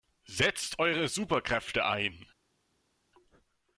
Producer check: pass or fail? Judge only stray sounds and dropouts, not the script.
pass